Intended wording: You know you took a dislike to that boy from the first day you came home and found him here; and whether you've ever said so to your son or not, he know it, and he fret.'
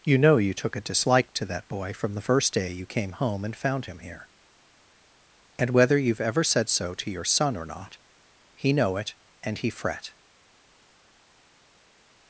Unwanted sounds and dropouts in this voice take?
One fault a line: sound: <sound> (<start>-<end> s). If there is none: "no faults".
no faults